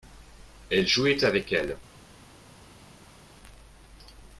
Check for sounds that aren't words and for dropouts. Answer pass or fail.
pass